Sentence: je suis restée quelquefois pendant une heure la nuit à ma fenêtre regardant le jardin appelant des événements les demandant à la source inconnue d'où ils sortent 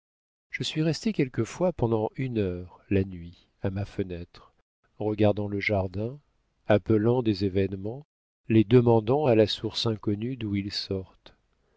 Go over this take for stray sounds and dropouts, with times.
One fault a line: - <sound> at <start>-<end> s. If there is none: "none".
none